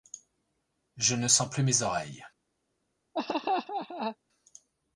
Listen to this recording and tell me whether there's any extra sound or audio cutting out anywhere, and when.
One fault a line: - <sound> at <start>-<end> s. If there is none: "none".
- laugh at 3.1-4.2 s